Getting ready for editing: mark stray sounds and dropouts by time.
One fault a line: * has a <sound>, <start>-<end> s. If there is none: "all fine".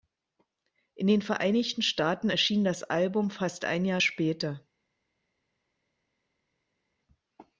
all fine